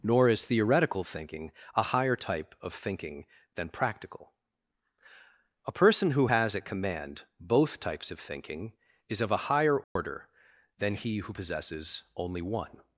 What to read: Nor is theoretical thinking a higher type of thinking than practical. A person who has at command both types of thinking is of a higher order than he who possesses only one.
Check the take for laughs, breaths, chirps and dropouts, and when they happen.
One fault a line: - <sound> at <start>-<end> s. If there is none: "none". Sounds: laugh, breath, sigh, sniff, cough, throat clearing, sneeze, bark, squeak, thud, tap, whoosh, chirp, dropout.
- dropout at 9.8-10.0 s